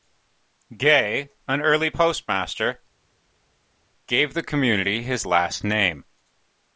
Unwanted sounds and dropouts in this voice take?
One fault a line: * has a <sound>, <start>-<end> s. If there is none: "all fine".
all fine